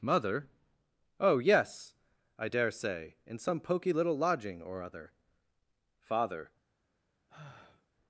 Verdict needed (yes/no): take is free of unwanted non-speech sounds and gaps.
no